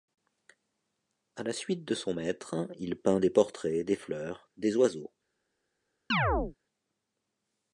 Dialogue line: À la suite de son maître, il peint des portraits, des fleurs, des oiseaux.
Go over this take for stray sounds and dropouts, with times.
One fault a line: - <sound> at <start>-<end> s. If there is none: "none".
- chirp at 6.1-6.6 s